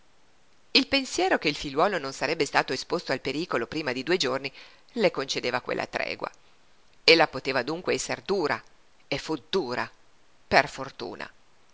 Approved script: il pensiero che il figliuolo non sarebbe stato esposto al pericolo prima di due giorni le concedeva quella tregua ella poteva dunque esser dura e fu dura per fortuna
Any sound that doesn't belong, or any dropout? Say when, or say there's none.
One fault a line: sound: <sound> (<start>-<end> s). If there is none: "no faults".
no faults